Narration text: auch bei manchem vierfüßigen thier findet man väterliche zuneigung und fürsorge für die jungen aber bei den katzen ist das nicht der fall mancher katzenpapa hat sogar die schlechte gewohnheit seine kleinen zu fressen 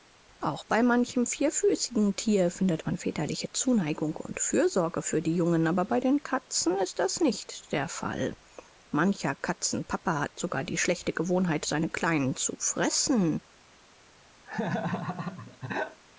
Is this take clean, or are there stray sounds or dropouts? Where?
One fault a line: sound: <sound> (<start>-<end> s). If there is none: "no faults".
sound: laugh (14.4-16.0 s)